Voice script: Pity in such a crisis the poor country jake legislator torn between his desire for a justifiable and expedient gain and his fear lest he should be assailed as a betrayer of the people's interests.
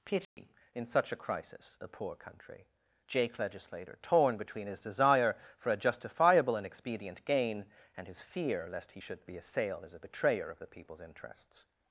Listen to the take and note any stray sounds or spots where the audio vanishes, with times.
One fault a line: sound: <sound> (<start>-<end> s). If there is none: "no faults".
sound: dropout (0.2-0.4 s)